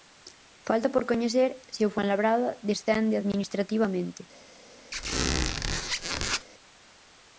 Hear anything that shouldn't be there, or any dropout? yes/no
yes